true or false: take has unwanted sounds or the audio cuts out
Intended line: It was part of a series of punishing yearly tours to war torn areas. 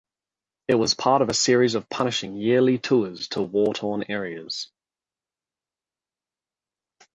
false